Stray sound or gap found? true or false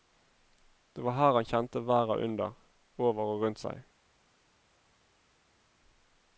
false